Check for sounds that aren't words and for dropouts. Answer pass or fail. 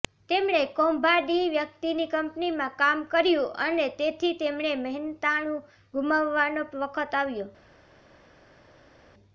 pass